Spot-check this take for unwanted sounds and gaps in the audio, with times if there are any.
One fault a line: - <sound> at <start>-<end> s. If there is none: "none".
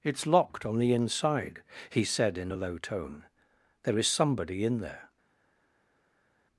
none